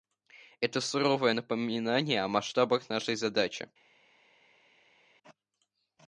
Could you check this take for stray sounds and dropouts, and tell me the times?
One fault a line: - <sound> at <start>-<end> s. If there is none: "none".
none